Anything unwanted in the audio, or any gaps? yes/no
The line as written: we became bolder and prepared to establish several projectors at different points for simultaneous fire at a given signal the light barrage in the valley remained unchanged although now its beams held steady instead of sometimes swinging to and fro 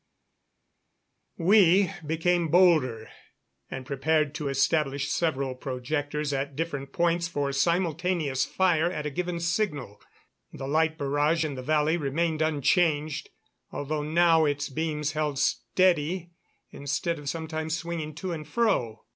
no